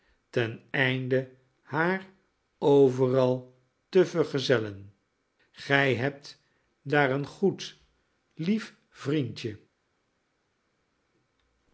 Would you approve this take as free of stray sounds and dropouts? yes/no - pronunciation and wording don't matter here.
yes